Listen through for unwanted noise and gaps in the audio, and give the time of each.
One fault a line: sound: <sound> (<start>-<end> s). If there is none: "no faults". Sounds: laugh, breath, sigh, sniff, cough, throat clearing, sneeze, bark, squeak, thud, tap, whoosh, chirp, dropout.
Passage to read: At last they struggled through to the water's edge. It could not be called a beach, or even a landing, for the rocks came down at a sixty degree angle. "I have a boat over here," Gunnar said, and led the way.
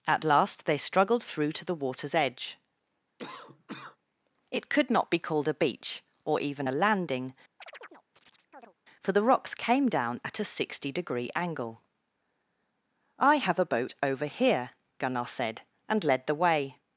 sound: cough (3.2-4.0 s)
sound: chirp (7.6-8.7 s)